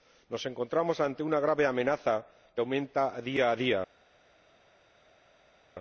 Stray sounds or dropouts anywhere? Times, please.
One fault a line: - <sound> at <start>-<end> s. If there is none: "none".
none